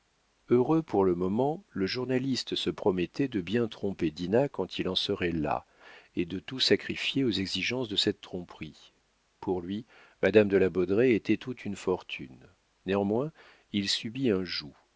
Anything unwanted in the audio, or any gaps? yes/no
no